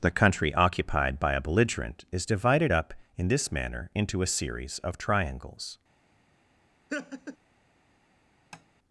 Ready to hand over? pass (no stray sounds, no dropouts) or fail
fail